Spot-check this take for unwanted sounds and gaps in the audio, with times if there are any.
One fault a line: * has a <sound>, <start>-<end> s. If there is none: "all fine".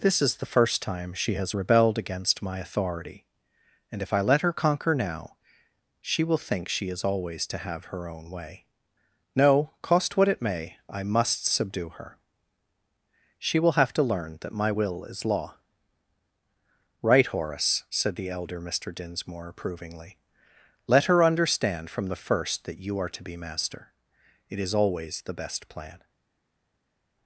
all fine